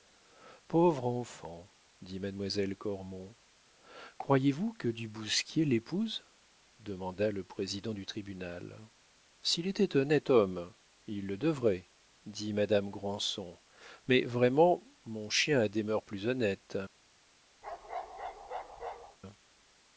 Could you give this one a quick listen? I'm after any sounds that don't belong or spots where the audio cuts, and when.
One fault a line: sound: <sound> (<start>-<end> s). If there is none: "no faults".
sound: bark (17.6-19.2 s)